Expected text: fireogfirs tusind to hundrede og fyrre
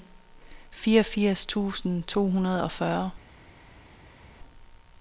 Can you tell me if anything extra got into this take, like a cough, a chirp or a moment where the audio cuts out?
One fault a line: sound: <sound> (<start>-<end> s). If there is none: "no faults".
no faults